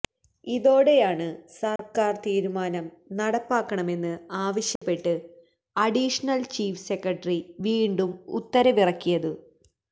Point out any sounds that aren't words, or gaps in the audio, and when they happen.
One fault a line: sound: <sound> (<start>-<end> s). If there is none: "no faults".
sound: dropout (1.8-1.8 s)
sound: dropout (4.8-4.8 s)